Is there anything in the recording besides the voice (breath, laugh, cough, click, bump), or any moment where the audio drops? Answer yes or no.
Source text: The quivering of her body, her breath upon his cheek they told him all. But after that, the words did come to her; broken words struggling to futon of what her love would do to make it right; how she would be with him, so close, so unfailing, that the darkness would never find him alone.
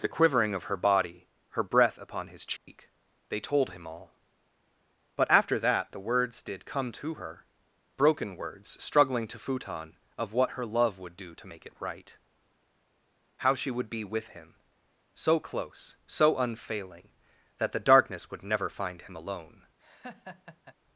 yes